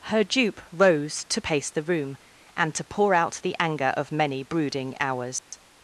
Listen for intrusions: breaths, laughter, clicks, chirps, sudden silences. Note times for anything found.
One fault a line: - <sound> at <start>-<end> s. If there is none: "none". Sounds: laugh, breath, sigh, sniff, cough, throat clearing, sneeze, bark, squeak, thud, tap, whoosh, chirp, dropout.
- dropout at 5.4-5.5 s